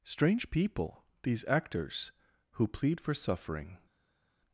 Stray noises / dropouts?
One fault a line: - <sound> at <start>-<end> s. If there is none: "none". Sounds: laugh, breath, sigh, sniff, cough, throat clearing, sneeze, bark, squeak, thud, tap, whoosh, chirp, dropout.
none